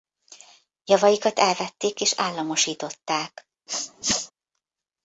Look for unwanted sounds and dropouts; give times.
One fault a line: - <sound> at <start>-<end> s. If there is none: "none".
- sneeze at 3.7-4.3 s